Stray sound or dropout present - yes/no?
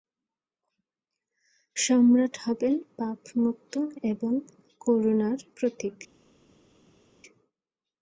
no